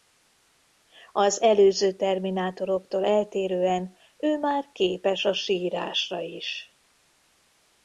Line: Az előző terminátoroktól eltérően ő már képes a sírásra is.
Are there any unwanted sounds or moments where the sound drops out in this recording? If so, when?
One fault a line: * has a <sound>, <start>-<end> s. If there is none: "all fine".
all fine